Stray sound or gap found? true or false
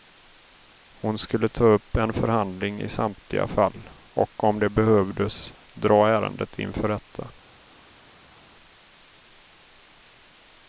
false